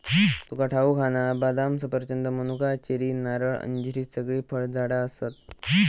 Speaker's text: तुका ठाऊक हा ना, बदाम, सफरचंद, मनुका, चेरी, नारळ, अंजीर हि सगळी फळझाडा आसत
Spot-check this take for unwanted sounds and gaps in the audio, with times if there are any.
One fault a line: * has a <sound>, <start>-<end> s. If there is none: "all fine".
all fine